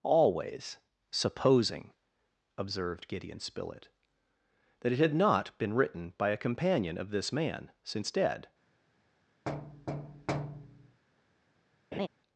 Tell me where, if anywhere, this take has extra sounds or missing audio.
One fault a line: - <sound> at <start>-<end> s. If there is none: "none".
- thud at 9.5-11.0 s
- laugh at 11.9-12.1 s